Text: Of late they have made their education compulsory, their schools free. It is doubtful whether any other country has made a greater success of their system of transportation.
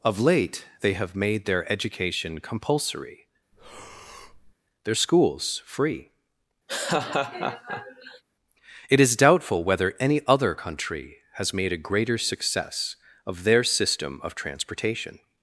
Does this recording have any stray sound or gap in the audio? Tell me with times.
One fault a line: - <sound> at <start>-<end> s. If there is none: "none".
- breath at 3.5-4.5 s
- laugh at 6.7-8.2 s